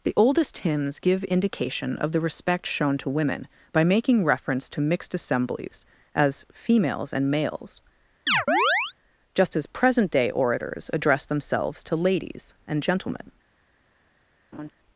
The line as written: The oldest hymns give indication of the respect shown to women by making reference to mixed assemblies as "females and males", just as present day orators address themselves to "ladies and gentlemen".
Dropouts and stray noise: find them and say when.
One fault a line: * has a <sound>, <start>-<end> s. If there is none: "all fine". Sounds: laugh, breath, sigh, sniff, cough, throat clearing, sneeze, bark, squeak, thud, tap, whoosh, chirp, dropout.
* has a chirp, 8.3-8.9 s
* has a laugh, 14.5-14.7 s